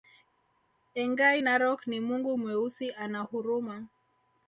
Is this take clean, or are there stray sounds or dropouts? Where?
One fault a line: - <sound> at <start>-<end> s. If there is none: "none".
none